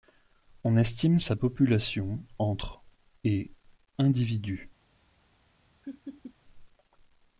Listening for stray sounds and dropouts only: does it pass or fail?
fail